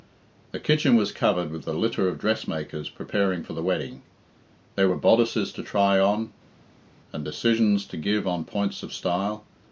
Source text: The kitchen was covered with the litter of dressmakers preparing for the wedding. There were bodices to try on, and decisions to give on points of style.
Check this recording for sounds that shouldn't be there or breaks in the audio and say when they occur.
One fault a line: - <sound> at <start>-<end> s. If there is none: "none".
none